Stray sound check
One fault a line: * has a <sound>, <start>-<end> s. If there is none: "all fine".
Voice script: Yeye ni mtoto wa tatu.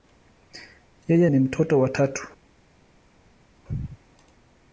all fine